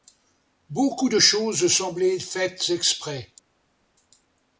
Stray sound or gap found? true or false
false